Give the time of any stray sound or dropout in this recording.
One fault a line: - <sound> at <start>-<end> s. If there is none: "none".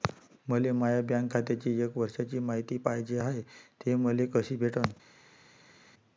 none